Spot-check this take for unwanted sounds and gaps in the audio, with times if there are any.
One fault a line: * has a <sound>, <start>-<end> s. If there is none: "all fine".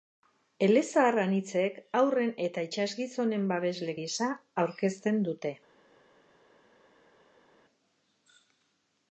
all fine